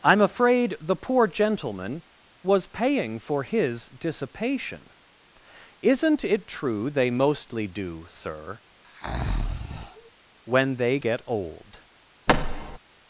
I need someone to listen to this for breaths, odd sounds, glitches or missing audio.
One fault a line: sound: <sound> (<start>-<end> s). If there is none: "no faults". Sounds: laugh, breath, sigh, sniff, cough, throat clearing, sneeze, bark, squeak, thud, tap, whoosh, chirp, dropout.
sound: breath (8.8-10.1 s)
sound: thud (12.3-12.8 s)